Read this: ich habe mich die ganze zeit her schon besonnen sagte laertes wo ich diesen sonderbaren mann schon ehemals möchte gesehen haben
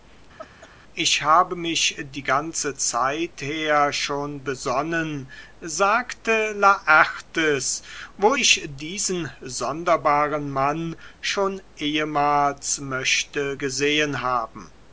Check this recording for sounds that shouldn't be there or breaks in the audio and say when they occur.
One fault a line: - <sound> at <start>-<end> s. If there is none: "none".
- laugh at 0.4-0.7 s